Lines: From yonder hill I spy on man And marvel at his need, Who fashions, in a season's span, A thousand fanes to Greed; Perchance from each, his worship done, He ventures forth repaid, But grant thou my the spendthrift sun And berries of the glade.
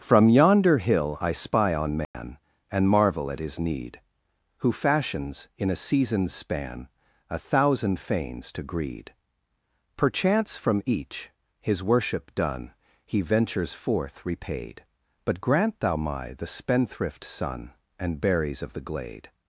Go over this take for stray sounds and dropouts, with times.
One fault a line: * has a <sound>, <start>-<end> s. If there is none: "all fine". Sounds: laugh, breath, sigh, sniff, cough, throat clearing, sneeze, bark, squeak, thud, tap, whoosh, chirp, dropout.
* has a dropout, 2.0-2.1 s